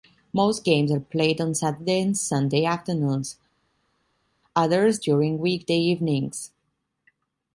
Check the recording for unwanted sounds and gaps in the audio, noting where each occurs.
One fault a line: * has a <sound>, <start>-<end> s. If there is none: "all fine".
all fine